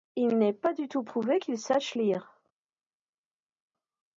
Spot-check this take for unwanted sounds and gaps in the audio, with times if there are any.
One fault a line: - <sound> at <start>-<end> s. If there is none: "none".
none